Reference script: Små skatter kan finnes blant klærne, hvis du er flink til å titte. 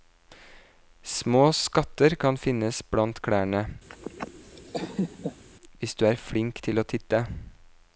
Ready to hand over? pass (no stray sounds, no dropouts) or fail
fail